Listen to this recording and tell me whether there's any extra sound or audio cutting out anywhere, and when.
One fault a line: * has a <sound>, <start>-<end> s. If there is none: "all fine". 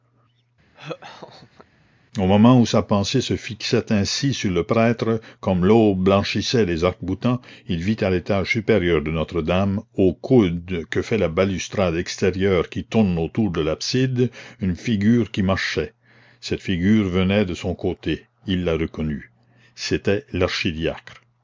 * has a laugh, 0.7-1.7 s